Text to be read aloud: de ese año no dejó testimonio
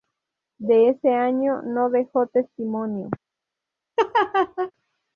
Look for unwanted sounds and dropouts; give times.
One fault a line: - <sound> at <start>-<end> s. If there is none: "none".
- laugh at 4.0-4.7 s